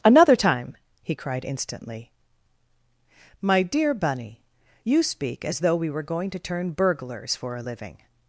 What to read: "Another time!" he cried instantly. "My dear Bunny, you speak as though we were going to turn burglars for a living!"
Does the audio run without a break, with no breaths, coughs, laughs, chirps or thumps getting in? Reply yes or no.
yes